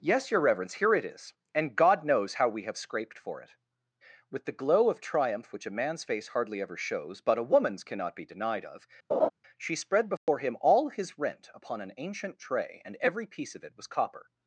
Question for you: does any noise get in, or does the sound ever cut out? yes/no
yes